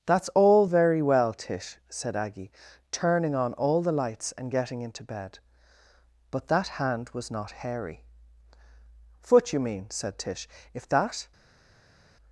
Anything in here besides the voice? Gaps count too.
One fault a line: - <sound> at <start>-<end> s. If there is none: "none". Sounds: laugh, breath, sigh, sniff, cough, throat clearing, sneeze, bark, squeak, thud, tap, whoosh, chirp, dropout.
none